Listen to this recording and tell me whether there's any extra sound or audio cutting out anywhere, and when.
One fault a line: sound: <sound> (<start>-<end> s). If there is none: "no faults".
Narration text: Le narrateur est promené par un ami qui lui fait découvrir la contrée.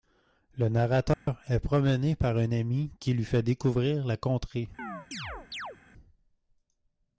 sound: dropout (1.1-1.3 s)
sound: chirp (4.8-5.8 s)